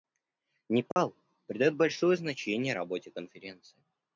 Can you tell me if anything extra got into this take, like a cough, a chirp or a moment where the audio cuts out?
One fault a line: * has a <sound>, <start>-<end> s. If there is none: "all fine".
* has a dropout, 0.9-1.0 s